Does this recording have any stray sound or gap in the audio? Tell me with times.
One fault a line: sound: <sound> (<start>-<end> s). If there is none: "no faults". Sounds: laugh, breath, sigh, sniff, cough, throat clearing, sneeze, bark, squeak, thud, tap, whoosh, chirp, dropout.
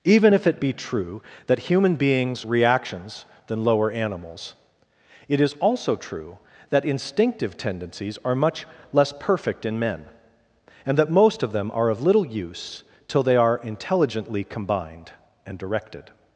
no faults